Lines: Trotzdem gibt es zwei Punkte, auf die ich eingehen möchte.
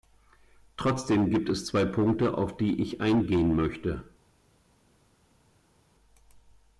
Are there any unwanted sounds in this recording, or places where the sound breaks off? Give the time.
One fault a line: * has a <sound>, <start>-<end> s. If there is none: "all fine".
all fine